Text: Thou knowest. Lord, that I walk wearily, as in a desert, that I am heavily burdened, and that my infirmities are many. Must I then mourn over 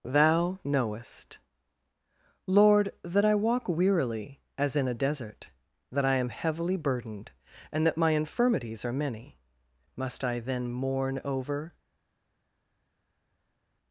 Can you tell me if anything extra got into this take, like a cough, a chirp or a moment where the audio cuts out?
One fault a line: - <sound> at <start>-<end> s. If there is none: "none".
none